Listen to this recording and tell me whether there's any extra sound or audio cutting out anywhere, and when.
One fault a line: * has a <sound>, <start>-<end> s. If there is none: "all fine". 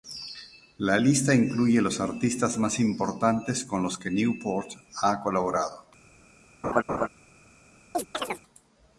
* has a laugh, 6.6-7.1 s
* has a chirp, 7.9-8.4 s